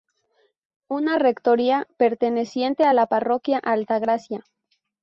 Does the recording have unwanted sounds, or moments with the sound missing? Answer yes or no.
no